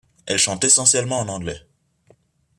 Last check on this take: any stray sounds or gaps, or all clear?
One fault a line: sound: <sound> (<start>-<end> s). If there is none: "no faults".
no faults